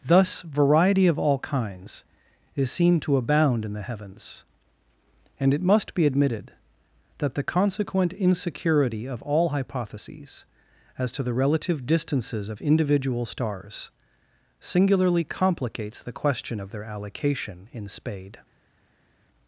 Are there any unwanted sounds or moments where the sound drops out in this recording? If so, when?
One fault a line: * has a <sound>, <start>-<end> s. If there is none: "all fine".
all fine